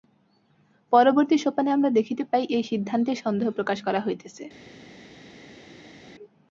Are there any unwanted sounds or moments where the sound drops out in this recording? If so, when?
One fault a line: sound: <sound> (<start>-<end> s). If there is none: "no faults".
no faults